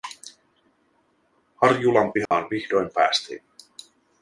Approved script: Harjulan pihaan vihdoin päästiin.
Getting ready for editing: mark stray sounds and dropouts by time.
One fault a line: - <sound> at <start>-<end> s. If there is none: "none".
- dropout at 2.3-2.3 s